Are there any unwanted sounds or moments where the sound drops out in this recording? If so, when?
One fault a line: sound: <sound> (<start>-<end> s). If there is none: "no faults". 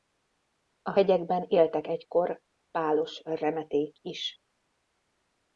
no faults